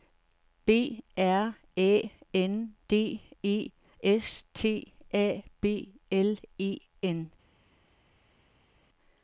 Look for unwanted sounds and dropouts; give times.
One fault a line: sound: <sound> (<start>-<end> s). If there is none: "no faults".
no faults